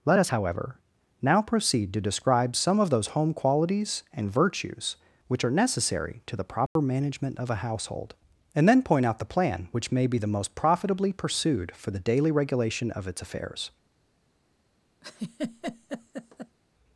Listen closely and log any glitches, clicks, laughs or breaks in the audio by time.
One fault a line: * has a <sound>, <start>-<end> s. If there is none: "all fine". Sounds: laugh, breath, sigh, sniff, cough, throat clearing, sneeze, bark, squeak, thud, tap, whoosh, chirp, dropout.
* has a dropout, 6.7-6.8 s
* has a laugh, 15.0-16.6 s